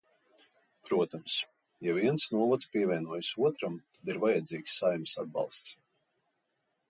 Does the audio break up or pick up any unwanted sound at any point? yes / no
no